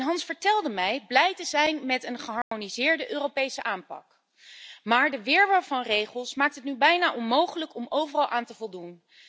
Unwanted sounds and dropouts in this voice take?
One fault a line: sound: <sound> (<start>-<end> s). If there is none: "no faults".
sound: dropout (2.4-2.5 s)